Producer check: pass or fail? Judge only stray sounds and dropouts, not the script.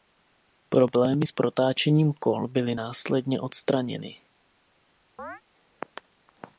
fail